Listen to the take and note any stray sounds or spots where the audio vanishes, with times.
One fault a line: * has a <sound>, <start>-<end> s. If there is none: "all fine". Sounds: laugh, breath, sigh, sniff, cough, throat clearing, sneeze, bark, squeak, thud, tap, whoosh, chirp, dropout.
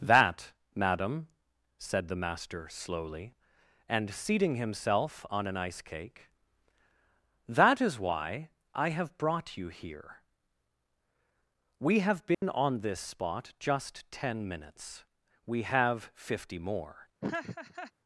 * has a dropout, 12.3-12.4 s
* has a laugh, 17.2-17.9 s